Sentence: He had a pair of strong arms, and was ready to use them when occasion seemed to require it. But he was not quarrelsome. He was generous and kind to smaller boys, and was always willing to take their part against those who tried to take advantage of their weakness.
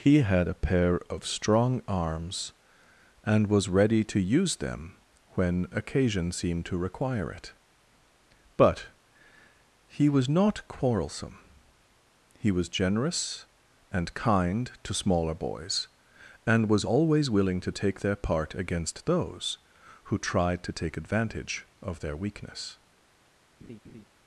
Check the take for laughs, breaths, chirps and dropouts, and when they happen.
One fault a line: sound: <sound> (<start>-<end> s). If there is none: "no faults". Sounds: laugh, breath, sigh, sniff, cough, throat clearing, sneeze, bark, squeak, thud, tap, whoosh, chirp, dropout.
sound: laugh (23.6-24.1 s)